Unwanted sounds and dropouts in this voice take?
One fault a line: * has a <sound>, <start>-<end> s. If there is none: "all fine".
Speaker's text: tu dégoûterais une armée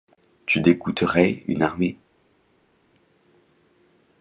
all fine